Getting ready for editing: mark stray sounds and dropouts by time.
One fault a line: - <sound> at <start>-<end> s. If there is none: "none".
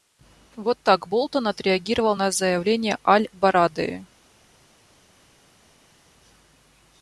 none